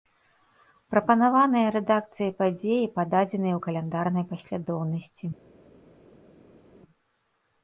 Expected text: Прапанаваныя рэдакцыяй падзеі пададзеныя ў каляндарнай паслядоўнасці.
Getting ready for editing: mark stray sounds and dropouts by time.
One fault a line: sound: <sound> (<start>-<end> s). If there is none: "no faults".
no faults